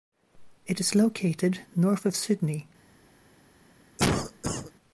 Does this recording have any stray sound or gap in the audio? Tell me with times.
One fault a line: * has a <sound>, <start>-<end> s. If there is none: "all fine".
* has a cough, 4.0-4.7 s